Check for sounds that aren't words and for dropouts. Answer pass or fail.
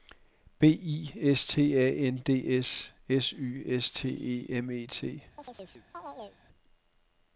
fail